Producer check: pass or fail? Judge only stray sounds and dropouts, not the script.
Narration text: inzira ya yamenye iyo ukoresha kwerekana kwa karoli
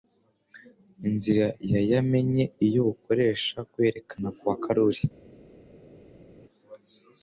pass